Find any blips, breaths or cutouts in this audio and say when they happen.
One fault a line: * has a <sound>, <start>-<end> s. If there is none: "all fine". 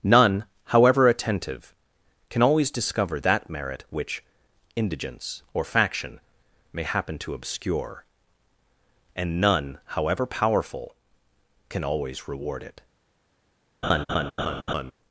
* has a laugh, 13.8-14.9 s